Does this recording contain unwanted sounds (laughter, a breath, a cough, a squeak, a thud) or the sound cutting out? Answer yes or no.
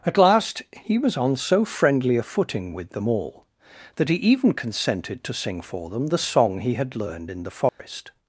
yes